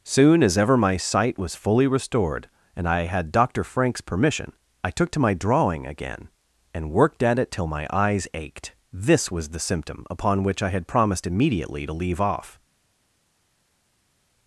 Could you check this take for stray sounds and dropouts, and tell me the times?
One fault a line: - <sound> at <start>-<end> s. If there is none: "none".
none